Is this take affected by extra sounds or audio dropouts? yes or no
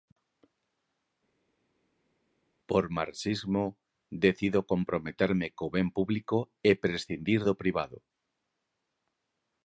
no